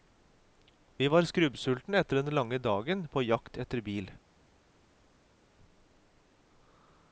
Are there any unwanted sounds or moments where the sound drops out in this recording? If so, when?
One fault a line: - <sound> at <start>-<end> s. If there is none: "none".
none